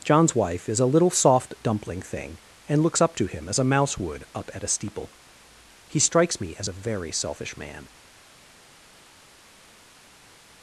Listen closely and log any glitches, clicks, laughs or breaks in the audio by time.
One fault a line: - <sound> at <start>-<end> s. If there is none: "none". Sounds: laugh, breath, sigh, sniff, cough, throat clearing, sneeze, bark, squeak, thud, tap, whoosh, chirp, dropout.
none